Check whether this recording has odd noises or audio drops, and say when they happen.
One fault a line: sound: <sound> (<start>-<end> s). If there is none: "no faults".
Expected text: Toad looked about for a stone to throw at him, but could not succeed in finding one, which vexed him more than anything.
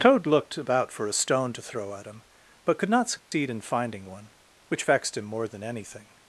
sound: dropout (3.2-3.3 s)